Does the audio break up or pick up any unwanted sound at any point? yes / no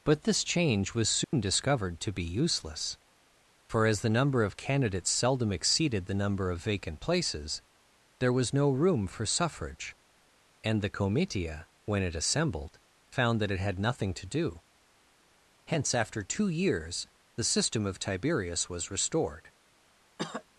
yes